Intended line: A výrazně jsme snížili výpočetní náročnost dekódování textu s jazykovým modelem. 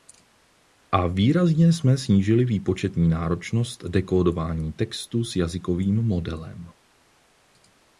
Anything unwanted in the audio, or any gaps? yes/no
no